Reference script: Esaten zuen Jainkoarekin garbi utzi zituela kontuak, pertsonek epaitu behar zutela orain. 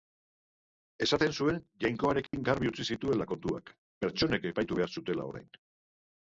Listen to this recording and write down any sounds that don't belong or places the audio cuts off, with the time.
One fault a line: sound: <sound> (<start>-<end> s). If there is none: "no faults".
sound: dropout (2.3-2.3 s)